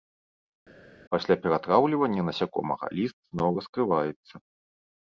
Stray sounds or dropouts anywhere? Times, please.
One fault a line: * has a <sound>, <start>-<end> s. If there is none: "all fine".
all fine